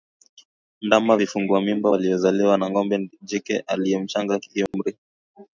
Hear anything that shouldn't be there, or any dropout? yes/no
yes